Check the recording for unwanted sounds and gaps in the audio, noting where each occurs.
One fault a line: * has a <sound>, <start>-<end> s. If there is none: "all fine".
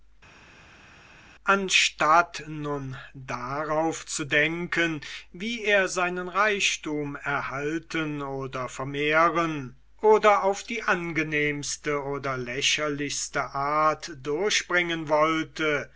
all fine